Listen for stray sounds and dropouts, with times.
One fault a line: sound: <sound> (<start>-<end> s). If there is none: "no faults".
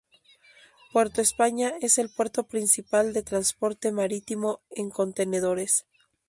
no faults